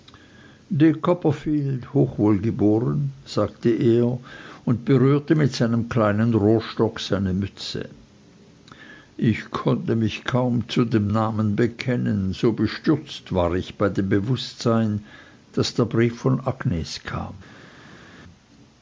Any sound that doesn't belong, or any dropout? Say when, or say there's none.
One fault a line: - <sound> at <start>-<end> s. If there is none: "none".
none